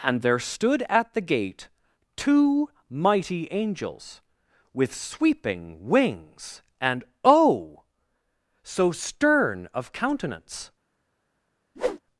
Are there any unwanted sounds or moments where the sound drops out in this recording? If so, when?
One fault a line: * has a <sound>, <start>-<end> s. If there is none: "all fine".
* has a whoosh, 11.8-12.0 s